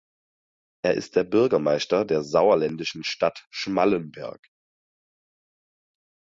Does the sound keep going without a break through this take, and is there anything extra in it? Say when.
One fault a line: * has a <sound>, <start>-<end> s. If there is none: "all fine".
all fine